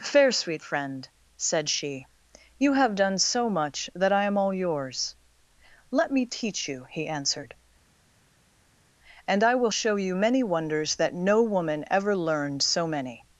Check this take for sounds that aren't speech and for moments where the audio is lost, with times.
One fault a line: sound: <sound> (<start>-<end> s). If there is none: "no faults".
no faults